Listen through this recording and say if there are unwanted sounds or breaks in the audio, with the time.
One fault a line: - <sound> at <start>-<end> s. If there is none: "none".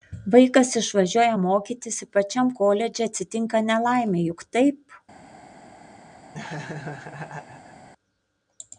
- laugh at 6.3-7.9 s